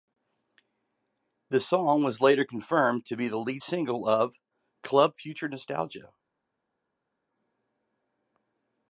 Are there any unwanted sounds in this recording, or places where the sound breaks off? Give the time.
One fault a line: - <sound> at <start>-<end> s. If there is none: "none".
none